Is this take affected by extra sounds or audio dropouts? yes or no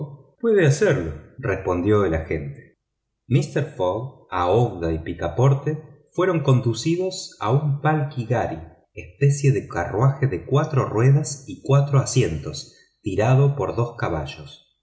no